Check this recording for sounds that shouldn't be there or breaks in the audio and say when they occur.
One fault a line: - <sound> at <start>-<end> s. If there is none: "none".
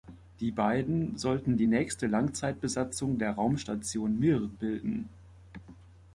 none